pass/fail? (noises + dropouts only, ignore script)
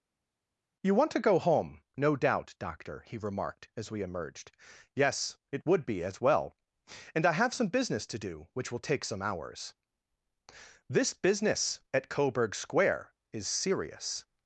pass